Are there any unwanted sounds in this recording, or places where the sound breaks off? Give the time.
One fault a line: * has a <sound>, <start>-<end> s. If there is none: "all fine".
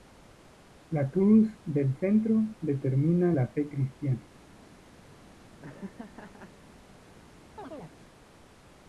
* has a laugh, 5.6-6.5 s
* has a chirp, 7.6-8.0 s